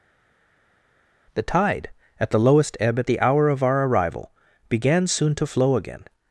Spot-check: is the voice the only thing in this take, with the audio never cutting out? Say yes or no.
yes